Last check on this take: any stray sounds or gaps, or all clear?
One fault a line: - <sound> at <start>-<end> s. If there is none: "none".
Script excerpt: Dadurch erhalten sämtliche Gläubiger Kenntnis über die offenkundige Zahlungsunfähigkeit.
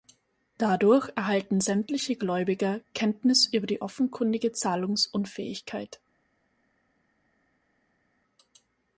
none